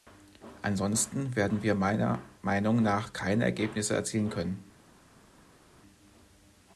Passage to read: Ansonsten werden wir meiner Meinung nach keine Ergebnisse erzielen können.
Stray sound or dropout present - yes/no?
no